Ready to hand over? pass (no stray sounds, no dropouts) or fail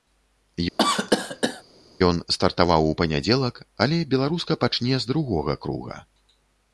fail